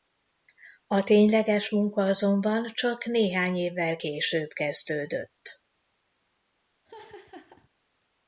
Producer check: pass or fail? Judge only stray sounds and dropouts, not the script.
fail